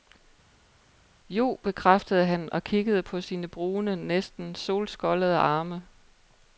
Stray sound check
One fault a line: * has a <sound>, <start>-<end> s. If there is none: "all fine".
all fine